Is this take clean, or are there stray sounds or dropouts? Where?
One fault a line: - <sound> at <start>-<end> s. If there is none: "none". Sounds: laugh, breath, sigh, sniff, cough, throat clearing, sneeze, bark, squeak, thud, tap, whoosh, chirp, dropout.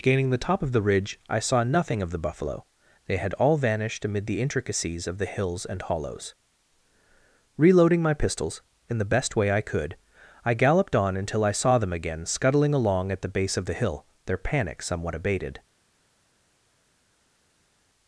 none